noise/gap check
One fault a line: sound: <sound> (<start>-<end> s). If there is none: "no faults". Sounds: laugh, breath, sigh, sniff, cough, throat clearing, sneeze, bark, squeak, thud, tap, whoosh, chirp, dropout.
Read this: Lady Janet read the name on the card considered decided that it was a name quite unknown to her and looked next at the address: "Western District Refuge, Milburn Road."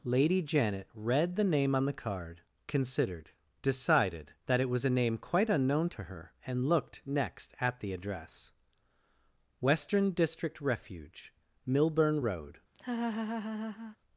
sound: laugh (12.7-14.0 s)